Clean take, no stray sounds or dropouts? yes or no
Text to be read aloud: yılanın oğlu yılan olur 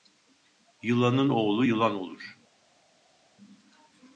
yes